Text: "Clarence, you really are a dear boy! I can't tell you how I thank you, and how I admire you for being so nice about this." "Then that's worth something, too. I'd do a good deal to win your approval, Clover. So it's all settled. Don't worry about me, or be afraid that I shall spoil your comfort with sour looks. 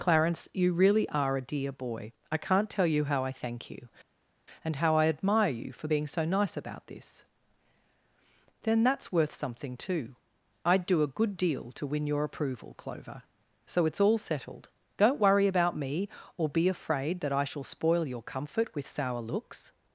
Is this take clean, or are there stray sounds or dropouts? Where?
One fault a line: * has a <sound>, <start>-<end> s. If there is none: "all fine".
all fine